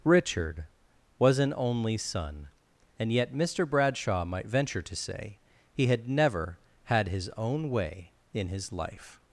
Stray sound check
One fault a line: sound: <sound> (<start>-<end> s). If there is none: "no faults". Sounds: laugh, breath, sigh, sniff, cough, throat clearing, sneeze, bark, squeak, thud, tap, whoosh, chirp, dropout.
no faults